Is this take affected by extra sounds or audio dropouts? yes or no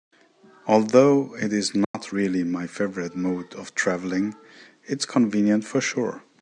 yes